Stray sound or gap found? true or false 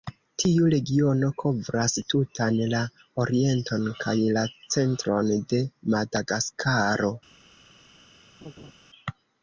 true